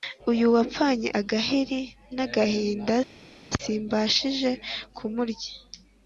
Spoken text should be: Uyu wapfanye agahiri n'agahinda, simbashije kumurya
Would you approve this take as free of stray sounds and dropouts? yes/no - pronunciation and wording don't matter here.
yes